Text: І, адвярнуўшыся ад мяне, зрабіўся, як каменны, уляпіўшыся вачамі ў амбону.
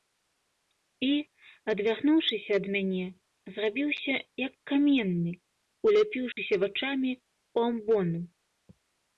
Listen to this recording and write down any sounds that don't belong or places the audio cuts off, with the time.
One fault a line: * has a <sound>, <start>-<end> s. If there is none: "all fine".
* has a dropout, 6.3-6.4 s